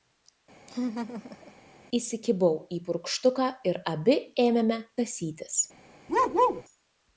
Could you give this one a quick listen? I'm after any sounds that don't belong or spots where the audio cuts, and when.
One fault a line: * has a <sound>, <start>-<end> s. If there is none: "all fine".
* has a laugh, 0.7-1.5 s
* has a bark, 6.1-6.6 s